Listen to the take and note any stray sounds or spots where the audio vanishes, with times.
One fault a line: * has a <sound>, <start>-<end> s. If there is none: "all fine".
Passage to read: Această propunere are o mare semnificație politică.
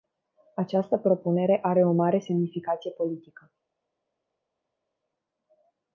all fine